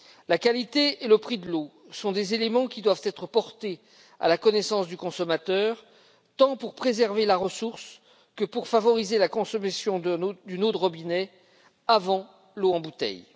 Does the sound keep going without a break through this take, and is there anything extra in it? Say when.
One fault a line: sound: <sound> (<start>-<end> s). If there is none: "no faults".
no faults